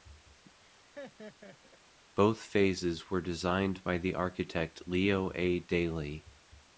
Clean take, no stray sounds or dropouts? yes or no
no